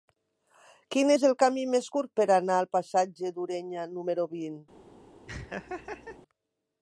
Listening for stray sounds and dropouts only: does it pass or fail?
fail